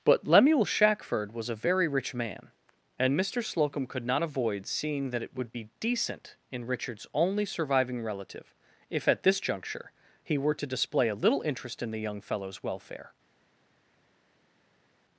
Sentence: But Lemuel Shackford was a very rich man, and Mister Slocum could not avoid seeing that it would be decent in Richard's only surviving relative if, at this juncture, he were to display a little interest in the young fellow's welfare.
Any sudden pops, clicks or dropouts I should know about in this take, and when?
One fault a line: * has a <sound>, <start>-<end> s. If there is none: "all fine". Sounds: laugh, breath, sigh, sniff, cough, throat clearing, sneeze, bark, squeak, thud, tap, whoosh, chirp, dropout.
all fine